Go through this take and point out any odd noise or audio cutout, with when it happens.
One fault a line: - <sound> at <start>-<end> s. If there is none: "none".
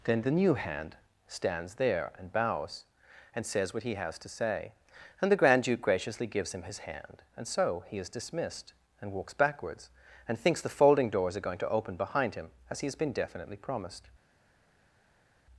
none